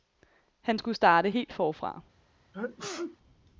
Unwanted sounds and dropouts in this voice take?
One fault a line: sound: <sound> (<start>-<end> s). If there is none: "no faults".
sound: sneeze (2.5-3.2 s)